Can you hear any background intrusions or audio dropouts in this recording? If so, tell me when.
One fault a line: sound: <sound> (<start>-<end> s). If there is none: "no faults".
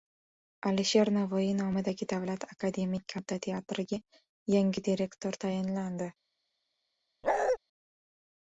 sound: bark (7.2-7.6 s)